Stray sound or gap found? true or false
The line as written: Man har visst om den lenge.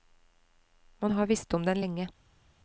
false